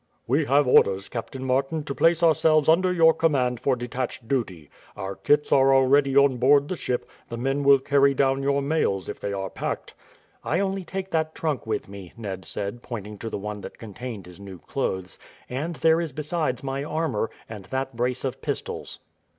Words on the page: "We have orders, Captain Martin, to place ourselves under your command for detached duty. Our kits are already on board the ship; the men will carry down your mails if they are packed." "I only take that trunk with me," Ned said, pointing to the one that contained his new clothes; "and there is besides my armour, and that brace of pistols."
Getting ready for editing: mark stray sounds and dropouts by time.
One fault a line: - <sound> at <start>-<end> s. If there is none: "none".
none